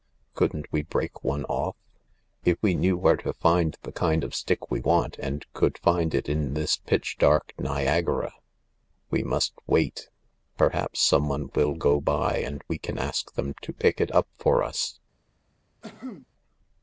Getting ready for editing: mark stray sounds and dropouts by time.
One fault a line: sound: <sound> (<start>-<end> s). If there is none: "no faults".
sound: cough (15.8-16.3 s)